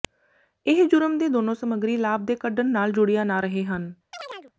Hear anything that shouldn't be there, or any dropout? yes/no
yes